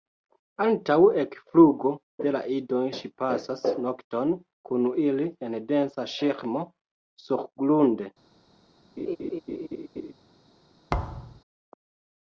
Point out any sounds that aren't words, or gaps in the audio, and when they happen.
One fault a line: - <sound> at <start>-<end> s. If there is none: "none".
- laugh at 9.0-10.1 s
- thud at 10.9-11.4 s